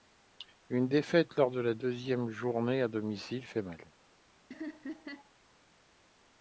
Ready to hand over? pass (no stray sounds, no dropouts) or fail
fail